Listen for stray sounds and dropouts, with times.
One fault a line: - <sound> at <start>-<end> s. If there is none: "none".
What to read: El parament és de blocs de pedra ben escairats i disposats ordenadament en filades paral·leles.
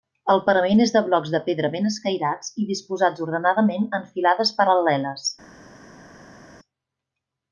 none